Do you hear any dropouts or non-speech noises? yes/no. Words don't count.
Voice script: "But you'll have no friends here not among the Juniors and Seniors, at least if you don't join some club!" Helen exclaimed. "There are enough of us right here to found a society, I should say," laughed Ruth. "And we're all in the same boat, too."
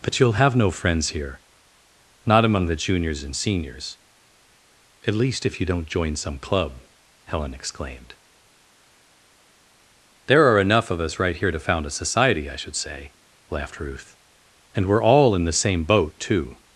no